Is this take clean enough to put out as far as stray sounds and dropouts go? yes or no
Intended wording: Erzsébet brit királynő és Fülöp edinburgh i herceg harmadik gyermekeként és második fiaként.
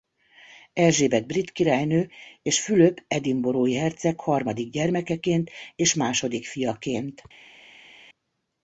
yes